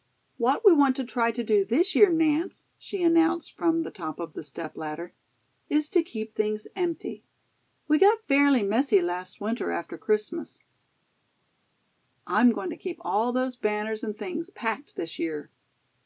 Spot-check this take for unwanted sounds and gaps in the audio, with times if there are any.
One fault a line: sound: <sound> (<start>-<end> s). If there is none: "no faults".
no faults